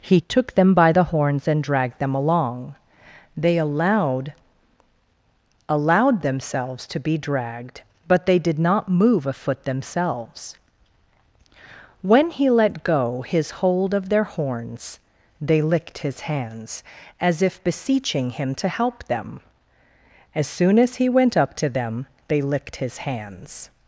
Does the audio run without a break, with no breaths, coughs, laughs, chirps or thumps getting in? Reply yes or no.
yes